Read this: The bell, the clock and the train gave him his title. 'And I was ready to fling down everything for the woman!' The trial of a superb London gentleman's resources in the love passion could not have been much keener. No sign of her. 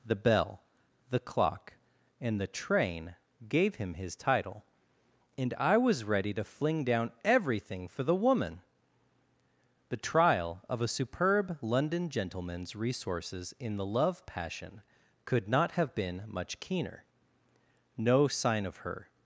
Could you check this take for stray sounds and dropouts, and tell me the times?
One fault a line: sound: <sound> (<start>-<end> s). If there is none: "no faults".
no faults